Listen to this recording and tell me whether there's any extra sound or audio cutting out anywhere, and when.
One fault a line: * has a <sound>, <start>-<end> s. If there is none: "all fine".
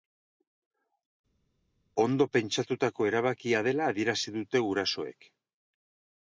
all fine